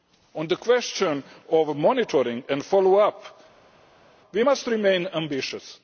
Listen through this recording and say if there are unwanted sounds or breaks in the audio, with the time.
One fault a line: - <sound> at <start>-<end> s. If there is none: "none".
none